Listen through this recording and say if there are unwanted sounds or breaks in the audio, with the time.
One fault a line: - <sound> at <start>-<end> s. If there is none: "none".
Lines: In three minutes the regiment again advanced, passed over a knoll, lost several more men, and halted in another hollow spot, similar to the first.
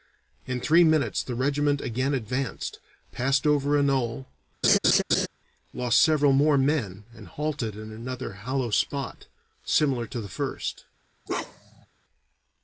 - laugh at 4.6-5.3 s
- bark at 11.3-11.9 s